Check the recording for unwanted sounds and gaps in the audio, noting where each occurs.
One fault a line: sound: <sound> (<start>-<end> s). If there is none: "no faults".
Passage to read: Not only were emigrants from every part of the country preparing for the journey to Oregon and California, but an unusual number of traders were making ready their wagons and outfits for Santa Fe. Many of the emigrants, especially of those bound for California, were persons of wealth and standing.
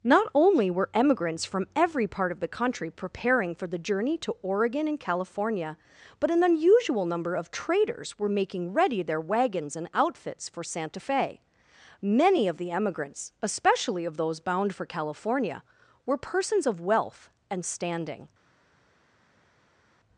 no faults